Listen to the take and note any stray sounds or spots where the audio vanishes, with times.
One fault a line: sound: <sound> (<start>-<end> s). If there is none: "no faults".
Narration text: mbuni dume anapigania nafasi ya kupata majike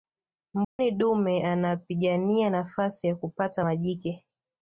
sound: dropout (0.6-0.8 s)